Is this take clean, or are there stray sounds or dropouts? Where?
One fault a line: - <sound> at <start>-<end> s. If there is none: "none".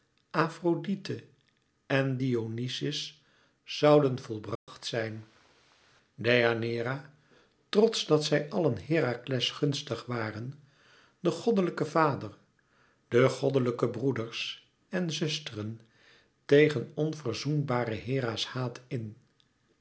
- dropout at 4.6-4.7 s